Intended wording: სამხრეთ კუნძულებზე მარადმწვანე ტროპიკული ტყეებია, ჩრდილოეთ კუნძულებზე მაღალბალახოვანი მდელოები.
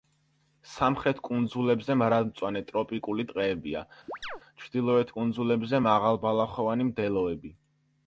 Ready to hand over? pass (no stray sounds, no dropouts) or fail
fail